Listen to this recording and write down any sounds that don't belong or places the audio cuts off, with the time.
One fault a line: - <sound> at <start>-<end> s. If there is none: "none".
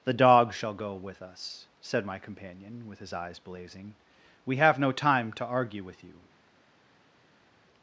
none